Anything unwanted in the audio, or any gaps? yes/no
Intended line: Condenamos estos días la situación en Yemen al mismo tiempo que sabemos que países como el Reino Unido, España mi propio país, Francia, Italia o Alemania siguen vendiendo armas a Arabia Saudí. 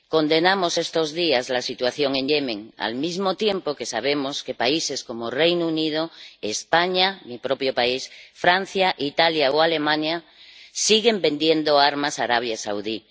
no